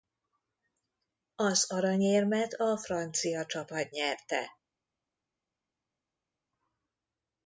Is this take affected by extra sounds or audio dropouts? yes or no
no